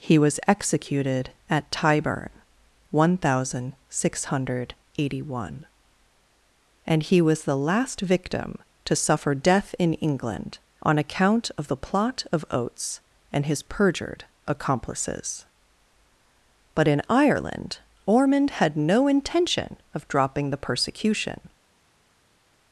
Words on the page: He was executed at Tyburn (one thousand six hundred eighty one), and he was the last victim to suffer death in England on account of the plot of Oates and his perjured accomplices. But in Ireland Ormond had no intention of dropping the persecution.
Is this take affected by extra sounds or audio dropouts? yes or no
no